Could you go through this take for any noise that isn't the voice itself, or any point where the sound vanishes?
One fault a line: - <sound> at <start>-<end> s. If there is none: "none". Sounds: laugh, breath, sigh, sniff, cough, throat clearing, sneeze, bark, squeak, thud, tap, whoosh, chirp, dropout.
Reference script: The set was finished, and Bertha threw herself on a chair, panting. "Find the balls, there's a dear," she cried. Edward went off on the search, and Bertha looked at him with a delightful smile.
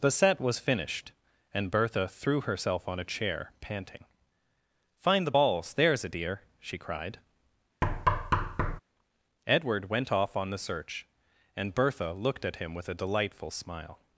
- thud at 7.8-8.8 s